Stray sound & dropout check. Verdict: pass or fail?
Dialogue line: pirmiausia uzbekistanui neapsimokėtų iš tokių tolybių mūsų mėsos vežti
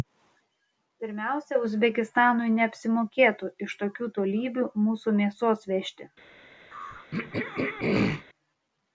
fail